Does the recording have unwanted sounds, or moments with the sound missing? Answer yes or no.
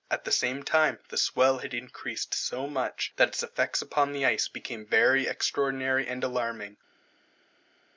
no